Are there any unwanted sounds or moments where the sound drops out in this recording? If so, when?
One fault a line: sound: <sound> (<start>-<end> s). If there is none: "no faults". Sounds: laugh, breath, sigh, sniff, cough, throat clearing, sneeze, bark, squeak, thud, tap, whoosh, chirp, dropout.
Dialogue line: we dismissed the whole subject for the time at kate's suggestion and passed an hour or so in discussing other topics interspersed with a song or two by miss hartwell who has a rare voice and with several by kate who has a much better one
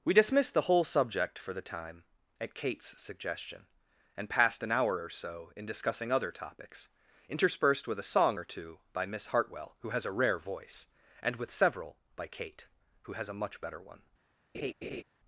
sound: laugh (14.5-15.0 s)